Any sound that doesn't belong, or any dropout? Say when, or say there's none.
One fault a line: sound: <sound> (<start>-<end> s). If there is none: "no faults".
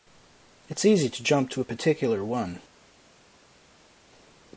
no faults